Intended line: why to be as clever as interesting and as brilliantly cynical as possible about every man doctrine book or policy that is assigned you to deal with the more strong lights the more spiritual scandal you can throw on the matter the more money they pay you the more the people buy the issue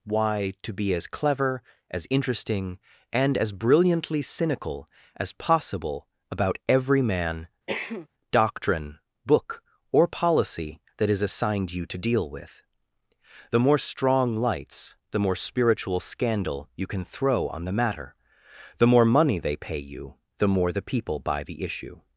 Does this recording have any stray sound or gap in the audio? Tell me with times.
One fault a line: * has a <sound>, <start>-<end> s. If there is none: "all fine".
* has a cough, 7.7-8.1 s